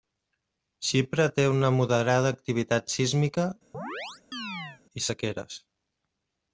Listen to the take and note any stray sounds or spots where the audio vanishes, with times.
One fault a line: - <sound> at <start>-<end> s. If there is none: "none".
- chirp at 3.7-4.8 s